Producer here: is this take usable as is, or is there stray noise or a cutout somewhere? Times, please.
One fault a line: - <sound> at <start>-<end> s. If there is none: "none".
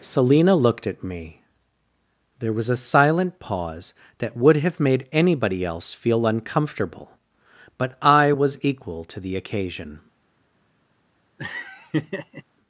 - laugh at 11.4-12.4 s